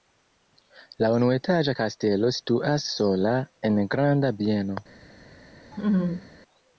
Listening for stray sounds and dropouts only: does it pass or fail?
fail